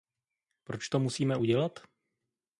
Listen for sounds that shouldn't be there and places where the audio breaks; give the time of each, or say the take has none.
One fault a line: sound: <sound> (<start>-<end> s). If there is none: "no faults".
no faults